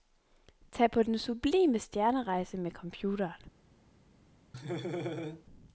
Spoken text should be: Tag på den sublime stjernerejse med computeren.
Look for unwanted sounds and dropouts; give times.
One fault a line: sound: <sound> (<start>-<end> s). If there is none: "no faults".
sound: laugh (4.5-5.5 s)